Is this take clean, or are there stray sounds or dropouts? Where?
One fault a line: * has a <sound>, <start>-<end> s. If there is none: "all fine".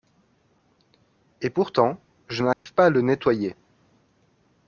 * has a dropout, 2.5-2.7 s